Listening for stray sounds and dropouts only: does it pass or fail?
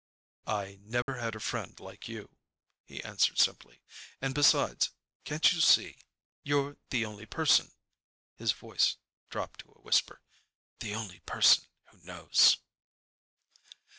fail